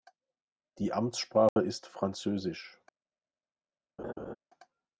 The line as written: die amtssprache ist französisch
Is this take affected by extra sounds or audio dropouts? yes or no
yes